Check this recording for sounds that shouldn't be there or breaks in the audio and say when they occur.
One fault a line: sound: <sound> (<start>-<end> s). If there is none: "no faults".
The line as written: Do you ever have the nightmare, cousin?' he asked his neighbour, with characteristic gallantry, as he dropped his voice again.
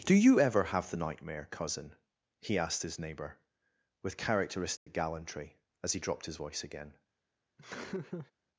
sound: dropout (4.8-4.9 s)
sound: laugh (7.6-8.3 s)